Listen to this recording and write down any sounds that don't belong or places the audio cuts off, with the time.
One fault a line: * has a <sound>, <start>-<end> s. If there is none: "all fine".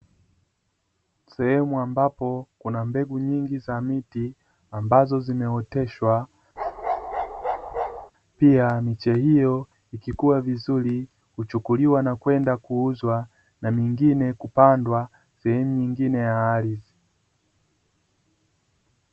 * has a bark, 6.6-8.1 s